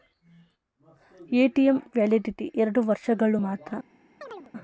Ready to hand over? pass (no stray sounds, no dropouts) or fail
fail